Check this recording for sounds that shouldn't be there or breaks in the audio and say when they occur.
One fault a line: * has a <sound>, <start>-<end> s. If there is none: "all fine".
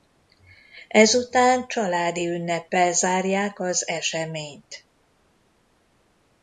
all fine